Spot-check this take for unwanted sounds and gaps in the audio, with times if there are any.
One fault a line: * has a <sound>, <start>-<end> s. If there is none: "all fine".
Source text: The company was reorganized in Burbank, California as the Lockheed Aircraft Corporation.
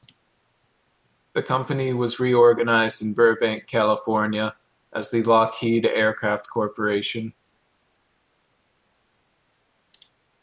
all fine